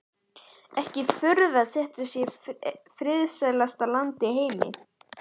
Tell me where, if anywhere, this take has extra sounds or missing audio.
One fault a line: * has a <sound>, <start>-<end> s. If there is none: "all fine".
all fine